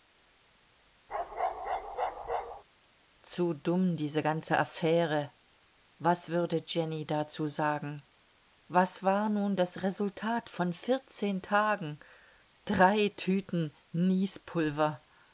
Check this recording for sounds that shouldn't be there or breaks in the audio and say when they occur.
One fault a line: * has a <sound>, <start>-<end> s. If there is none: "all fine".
* has a bark, 1.1-2.6 s